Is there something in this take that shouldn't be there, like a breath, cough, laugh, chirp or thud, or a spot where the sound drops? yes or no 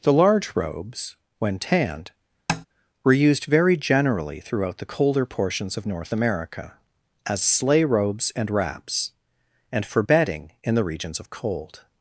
yes